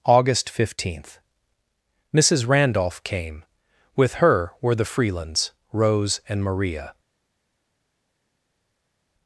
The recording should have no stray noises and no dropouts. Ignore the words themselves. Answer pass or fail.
pass